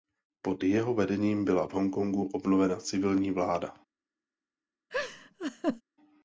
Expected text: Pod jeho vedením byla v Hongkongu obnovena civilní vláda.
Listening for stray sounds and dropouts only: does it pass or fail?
fail